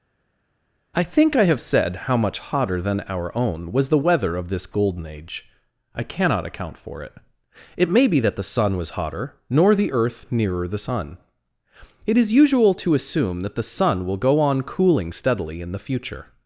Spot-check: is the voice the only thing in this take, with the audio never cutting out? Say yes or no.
yes